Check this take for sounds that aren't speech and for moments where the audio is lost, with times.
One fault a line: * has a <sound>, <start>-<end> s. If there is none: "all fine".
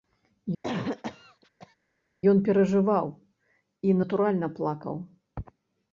* has a cough, 0.6-1.8 s